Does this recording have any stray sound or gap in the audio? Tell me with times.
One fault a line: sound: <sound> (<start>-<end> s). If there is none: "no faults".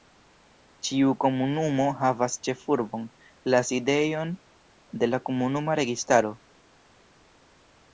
no faults